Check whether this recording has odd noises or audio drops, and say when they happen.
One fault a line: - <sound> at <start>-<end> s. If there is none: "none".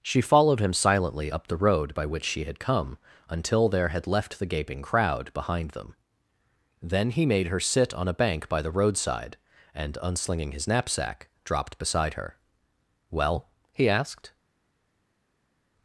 none